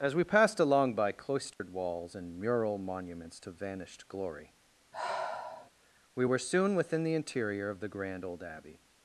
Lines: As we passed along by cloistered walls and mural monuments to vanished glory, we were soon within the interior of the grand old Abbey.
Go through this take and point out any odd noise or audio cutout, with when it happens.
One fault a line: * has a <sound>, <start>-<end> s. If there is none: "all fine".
* has a dropout, 1.5-1.6 s
* has a sigh, 4.9-5.7 s